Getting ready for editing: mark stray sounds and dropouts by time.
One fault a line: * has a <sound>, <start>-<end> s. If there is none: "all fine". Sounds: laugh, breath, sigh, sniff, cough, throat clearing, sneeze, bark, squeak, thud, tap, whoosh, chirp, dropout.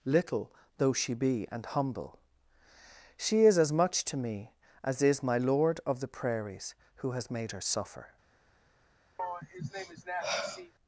* has a sigh, 9.2-10.7 s